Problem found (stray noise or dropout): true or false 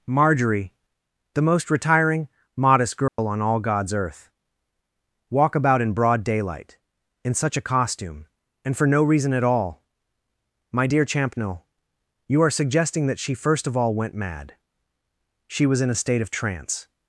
true